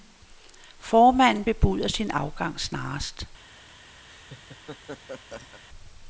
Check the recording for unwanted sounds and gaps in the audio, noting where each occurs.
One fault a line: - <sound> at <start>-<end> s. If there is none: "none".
- laugh at 4.1-5.6 s